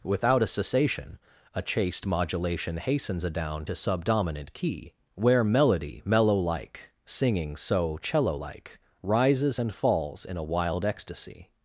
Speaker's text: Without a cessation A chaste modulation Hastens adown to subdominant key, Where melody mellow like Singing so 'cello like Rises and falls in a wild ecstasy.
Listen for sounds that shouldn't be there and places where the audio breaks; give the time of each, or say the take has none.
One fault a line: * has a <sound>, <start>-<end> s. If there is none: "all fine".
all fine